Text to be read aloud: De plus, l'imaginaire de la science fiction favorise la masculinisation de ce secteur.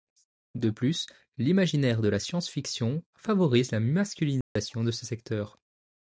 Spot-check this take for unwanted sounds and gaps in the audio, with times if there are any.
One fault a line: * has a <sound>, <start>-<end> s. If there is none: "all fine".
* has a dropout, 4.4-4.6 s